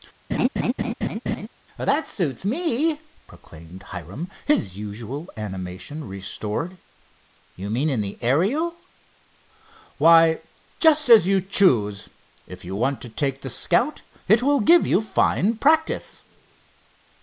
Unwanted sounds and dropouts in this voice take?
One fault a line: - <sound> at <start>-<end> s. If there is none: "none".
- laugh at 0.3-1.5 s